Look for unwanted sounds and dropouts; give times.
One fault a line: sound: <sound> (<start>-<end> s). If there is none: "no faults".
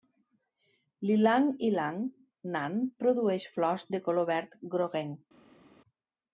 no faults